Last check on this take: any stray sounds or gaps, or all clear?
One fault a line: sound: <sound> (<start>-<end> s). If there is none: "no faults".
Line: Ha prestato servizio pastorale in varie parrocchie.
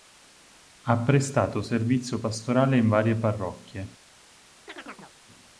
sound: chirp (4.7-5.1 s)